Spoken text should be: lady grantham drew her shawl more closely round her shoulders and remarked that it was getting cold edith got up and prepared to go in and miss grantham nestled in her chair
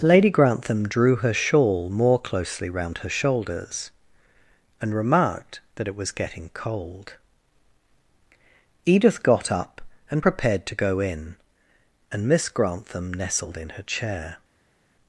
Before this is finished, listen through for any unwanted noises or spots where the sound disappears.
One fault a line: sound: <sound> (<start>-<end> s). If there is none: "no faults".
no faults